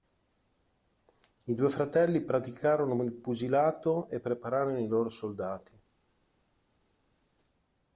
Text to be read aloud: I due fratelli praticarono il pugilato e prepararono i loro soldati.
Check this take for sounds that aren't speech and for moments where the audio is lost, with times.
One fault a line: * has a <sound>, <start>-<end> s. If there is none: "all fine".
all fine